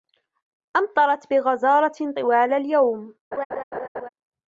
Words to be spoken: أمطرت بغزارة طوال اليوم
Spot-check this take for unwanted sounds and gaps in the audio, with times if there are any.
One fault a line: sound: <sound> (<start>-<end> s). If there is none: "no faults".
sound: laugh (3.3-4.1 s)